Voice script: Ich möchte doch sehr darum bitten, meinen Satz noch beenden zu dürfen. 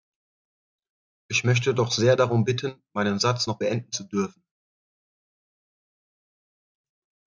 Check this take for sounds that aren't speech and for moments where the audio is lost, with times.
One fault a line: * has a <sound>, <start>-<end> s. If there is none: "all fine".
all fine